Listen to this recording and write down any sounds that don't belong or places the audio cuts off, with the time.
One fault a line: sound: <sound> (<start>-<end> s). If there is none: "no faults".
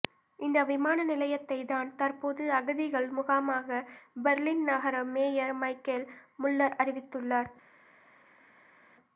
no faults